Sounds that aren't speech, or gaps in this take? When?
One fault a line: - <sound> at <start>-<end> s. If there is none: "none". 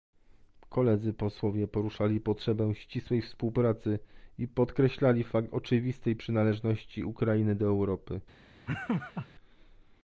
- laugh at 8.7-9.3 s